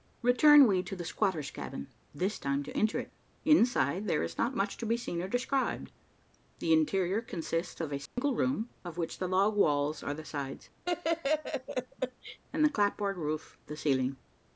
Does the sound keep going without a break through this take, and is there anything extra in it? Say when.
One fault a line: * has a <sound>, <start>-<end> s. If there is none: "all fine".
* has a dropout, 8.1-8.2 s
* has a laugh, 10.8-12.4 s